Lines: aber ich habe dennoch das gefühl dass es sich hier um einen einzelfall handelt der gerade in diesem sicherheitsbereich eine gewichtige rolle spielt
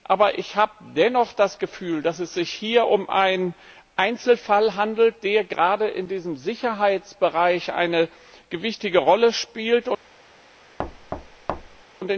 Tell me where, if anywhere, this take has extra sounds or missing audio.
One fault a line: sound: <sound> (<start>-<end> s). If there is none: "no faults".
sound: thud (10.8-11.8 s)